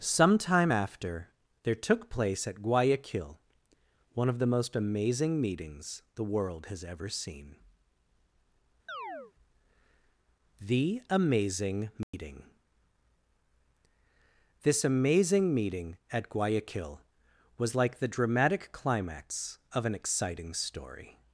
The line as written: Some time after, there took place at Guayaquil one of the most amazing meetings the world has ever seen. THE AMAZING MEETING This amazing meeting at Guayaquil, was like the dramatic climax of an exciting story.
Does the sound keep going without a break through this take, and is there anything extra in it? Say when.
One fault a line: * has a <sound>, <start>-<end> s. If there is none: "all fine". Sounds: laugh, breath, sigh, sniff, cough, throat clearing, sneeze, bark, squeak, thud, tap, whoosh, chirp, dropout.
* has a chirp, 8.9-9.3 s
* has a dropout, 12.0-12.1 s